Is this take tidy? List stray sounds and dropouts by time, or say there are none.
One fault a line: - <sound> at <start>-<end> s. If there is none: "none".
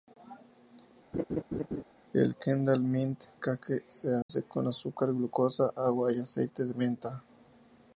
- laugh at 1.1-1.8 s
- dropout at 4.2-4.3 s